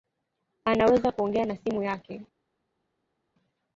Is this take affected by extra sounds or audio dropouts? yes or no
no